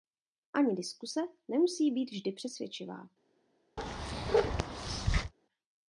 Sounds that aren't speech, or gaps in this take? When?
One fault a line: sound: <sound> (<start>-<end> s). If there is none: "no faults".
sound: bark (3.8-5.3 s)